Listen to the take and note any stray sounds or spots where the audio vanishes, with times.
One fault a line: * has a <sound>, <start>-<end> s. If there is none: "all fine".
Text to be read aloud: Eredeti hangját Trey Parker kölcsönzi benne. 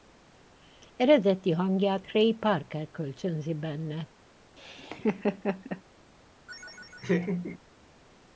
* has a laugh, 4.6-5.8 s
* has a laugh, 6.5-7.6 s